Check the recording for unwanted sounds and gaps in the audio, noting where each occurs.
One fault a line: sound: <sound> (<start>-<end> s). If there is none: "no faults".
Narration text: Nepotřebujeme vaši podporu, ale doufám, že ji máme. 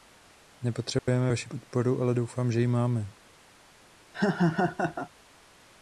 sound: dropout (1.0-1.1 s)
sound: laugh (4.1-5.1 s)